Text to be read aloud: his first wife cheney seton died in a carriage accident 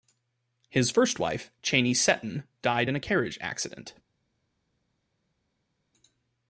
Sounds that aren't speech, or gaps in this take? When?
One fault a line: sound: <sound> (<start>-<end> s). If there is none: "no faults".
no faults